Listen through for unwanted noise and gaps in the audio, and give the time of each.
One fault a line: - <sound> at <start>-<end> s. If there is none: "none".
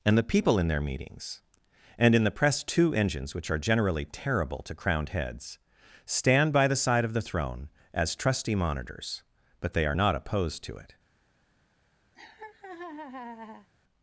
- laugh at 12.1-13.7 s